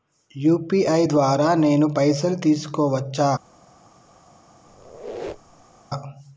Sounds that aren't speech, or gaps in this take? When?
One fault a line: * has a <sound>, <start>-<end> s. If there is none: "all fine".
* has a squeak, 4.7-5.8 s